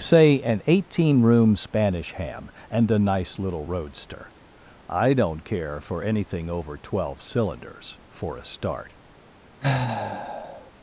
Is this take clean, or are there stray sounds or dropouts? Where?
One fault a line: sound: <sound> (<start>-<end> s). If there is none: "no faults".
sound: sigh (9.6-10.7 s)